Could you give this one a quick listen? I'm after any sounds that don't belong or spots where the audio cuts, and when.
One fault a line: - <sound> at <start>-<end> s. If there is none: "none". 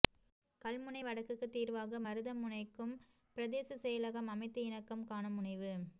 none